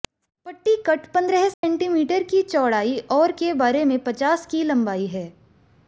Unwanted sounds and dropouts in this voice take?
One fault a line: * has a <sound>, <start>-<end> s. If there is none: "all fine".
* has a dropout, 1.5-1.6 s